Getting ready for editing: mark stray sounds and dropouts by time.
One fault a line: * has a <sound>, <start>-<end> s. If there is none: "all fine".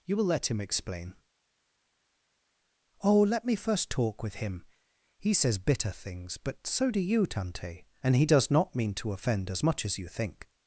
all fine